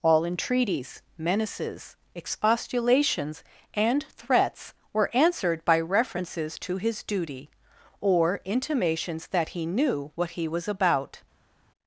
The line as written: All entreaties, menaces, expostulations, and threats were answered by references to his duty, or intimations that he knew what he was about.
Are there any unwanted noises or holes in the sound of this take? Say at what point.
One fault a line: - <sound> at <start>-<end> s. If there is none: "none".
none